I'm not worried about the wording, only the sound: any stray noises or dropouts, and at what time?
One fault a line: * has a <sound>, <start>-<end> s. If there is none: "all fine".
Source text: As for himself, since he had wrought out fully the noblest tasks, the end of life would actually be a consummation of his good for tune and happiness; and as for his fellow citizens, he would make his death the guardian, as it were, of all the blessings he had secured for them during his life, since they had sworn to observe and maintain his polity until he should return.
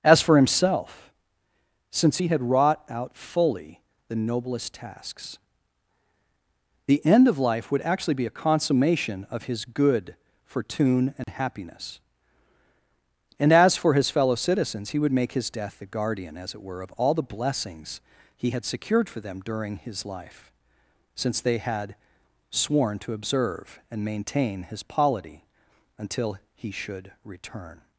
* has a dropout, 11.2-11.3 s